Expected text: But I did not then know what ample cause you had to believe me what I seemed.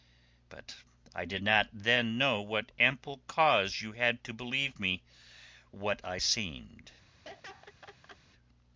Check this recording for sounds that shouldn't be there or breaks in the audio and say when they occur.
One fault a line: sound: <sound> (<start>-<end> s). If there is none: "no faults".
sound: laugh (7.2-8.2 s)